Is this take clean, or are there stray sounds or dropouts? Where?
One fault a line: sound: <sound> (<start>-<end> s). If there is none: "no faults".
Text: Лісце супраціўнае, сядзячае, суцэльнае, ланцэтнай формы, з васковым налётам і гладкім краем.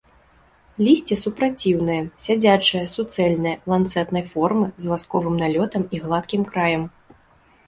no faults